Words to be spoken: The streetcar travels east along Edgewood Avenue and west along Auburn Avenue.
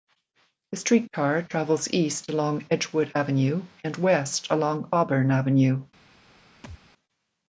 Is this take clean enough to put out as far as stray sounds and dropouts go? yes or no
no